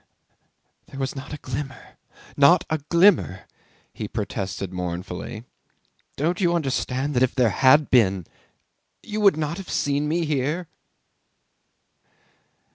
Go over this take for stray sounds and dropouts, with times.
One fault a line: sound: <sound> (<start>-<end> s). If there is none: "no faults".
no faults